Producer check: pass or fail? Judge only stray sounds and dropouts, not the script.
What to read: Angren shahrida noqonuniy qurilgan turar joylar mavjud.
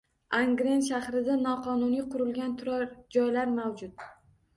pass